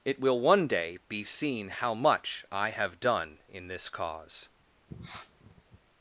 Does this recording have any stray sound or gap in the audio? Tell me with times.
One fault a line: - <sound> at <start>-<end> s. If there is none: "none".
- sniff at 4.9-5.8 s